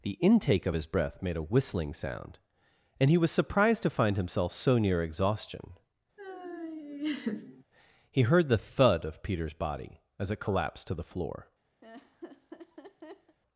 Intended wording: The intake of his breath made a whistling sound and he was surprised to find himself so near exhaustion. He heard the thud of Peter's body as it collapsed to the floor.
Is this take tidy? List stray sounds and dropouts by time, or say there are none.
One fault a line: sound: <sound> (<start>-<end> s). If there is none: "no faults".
sound: laugh (6.2-7.6 s)
sound: laugh (11.8-13.4 s)